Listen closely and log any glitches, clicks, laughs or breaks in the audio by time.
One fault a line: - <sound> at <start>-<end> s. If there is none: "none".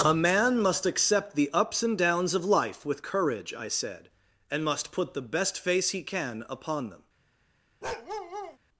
- bark at 7.8-8.6 s